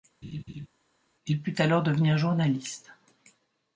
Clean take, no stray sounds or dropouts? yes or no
no